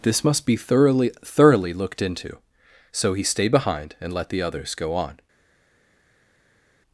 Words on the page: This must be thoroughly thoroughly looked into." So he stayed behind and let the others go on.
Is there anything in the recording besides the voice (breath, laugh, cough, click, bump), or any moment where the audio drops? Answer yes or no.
no